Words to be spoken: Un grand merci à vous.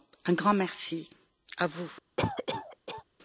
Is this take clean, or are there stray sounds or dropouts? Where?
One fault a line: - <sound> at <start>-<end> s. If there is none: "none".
- cough at 2.2-3.0 s